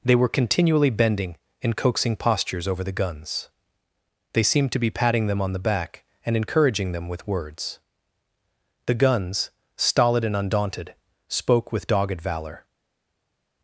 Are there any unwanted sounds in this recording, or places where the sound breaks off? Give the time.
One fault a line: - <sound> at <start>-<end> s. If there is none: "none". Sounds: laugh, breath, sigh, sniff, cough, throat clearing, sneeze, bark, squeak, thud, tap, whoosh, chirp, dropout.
none